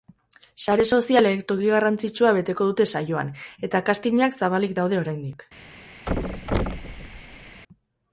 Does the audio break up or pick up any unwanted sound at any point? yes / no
yes